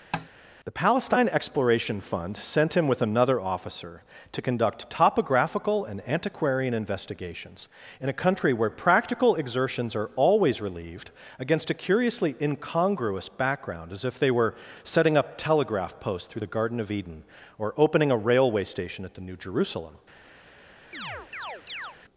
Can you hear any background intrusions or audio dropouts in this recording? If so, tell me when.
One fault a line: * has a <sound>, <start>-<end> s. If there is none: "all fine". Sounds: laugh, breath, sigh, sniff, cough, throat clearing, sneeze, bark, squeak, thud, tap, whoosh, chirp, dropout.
* has a tap, 0.1-0.3 s
* has a chirp, 20.9-22.0 s